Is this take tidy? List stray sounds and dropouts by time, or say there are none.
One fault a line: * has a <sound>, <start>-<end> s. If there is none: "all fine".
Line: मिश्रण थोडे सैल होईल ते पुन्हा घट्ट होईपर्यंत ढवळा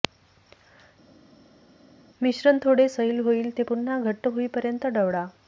all fine